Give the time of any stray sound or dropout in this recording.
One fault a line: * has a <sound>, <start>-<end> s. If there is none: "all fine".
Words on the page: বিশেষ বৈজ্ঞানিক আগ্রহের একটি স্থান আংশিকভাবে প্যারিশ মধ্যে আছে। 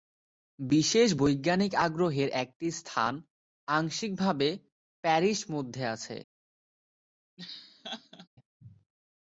* has a laugh, 7.4-8.3 s